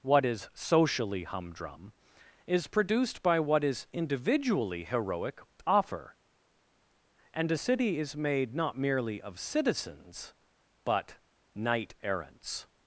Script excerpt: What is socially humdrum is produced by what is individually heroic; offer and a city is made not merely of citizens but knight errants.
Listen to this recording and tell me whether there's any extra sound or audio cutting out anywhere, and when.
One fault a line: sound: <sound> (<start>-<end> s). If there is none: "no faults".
no faults